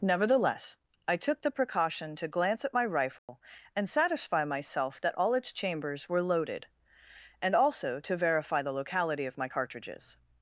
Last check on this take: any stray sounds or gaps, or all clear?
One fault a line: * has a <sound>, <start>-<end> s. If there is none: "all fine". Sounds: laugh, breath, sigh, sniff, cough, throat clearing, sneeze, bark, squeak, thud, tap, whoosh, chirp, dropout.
* has a dropout, 3.2-3.3 s